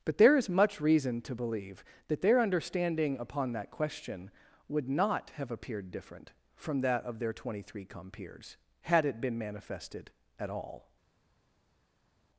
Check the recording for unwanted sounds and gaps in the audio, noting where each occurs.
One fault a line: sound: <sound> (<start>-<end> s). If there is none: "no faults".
no faults